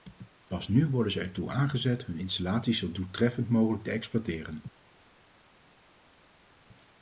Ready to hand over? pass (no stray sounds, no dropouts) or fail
pass